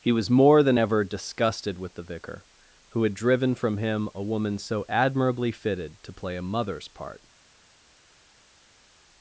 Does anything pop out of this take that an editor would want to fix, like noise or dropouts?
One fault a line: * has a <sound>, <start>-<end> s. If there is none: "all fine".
all fine